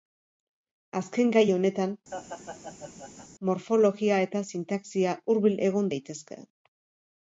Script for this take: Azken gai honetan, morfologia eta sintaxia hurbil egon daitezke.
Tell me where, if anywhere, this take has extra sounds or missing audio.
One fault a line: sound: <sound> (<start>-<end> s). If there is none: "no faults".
sound: laugh (2.1-3.3 s)